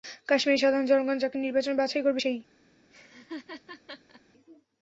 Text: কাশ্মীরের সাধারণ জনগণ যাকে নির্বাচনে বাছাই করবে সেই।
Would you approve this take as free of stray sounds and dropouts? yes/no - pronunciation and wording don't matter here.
no